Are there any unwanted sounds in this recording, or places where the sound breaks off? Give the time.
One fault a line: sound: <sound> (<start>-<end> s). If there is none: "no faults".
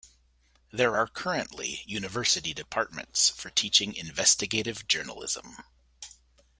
no faults